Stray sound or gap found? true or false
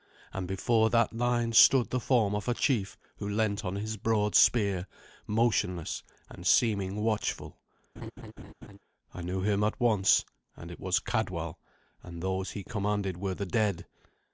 true